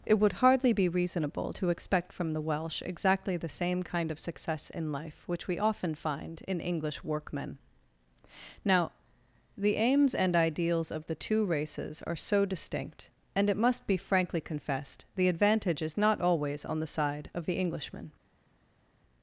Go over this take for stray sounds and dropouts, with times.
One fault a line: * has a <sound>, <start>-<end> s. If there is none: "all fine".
all fine